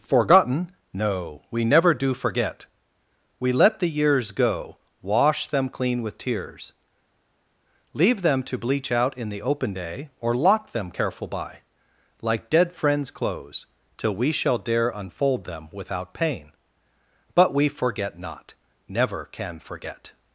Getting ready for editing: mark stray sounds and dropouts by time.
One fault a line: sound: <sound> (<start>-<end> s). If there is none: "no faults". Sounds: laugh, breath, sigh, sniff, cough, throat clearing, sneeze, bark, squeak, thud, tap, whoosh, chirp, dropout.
no faults